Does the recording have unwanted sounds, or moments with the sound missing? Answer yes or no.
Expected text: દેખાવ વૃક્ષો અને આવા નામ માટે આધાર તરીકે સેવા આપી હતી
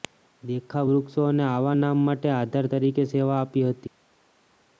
no